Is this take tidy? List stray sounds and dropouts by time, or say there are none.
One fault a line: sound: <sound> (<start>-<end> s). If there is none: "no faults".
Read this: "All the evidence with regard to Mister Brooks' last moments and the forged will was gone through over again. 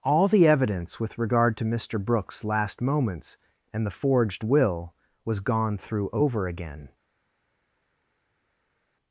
no faults